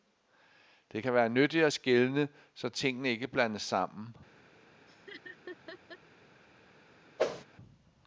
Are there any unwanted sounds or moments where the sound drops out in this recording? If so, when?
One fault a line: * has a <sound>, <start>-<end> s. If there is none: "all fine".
* has a laugh, 4.9-6.0 s
* has a whoosh, 7.2-7.4 s